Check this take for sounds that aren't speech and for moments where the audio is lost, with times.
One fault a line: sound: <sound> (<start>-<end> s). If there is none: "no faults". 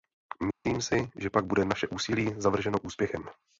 sound: dropout (0.5-0.6 s)